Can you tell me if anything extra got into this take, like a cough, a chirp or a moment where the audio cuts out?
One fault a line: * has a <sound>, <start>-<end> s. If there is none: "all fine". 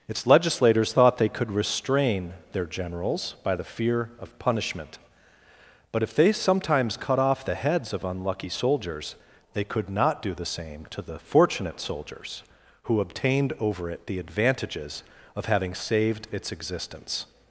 all fine